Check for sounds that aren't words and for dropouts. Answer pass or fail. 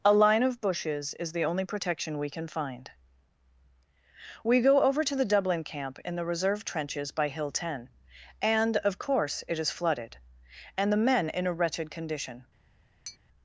fail